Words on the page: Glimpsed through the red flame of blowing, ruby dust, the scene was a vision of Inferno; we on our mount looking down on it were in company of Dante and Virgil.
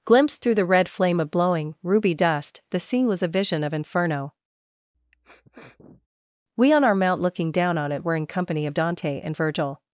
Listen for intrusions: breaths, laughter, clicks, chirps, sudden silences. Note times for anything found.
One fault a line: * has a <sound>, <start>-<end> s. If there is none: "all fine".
* has a sniff, 4.9-6.1 s